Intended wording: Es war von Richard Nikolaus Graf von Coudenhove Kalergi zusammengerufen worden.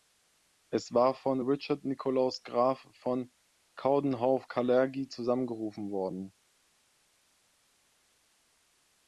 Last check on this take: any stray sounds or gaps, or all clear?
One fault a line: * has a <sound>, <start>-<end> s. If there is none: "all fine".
all fine